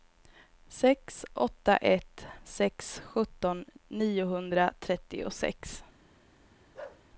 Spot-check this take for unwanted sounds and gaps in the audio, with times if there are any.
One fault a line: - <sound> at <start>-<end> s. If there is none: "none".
- bark at 6.7-7.0 s